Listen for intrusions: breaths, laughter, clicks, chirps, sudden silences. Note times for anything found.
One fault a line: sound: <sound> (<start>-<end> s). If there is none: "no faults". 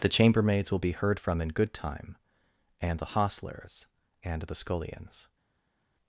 no faults